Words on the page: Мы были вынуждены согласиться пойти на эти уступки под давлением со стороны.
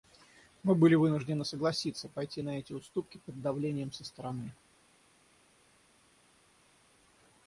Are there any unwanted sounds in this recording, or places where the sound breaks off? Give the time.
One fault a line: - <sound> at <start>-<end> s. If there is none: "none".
none